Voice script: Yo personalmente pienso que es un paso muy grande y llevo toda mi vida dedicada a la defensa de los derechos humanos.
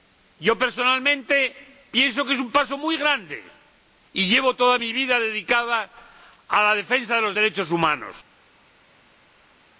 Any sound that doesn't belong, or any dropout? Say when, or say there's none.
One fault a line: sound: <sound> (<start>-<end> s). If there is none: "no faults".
no faults